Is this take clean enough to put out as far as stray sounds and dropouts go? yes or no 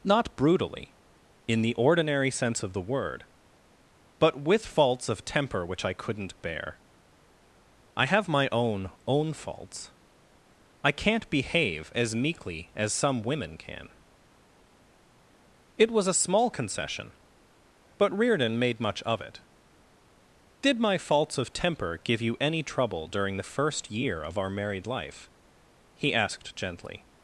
yes